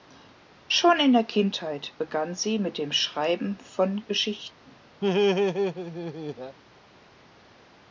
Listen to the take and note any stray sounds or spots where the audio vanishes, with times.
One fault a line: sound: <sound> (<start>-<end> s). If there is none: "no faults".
sound: laugh (5.0-6.6 s)